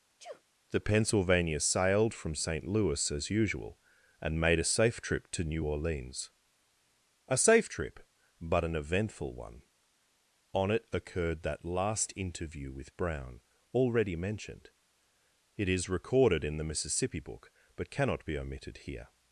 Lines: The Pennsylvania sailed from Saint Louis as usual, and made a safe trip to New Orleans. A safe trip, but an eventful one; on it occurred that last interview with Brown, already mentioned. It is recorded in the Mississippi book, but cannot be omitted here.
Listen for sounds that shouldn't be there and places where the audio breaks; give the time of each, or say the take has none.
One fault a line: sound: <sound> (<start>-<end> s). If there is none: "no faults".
sound: sneeze (0.2-0.4 s)